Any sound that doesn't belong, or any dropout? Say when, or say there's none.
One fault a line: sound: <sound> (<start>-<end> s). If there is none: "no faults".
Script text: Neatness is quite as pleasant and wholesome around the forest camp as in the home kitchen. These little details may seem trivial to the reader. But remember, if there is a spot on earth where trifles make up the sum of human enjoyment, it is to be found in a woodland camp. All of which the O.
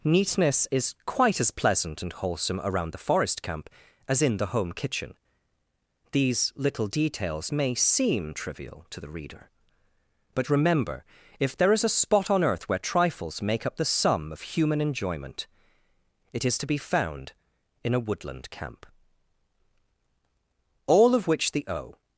no faults